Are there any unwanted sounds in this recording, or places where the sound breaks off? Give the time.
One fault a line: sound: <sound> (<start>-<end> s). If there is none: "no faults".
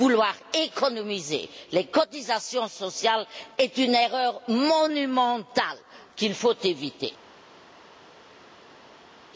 no faults